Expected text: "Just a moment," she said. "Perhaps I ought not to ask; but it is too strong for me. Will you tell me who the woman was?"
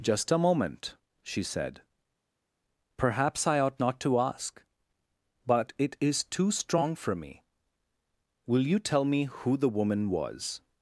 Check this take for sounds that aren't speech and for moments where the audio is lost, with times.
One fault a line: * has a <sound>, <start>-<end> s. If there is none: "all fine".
all fine